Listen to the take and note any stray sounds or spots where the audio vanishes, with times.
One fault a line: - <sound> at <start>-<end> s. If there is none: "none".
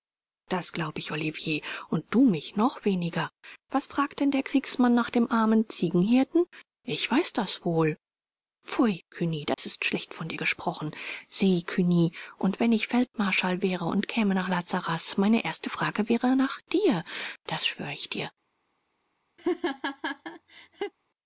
- dropout at 9.5-9.6 s
- laugh at 19.4-20.9 s